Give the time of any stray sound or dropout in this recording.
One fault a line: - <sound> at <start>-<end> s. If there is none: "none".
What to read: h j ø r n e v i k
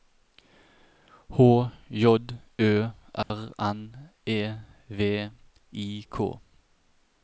- dropout at 3.2-3.3 s